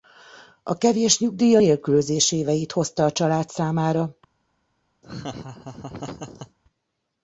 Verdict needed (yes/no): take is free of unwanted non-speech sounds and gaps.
no